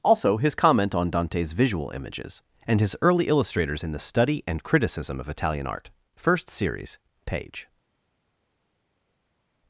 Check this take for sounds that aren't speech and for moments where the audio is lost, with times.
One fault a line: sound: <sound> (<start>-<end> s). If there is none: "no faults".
no faults